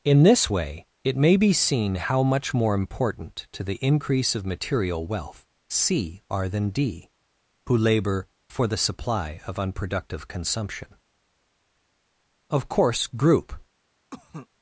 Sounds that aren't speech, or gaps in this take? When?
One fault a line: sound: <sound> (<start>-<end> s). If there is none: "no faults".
sound: cough (14.1-14.5 s)